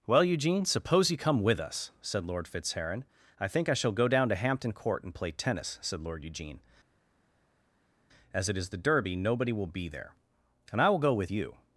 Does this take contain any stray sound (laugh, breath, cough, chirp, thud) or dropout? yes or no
no